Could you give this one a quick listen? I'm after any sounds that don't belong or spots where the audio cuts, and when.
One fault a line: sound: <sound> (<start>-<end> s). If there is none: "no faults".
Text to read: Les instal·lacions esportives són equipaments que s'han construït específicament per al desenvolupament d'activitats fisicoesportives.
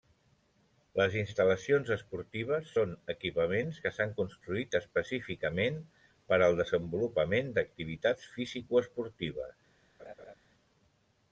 sound: laugh (10.0-10.3 s)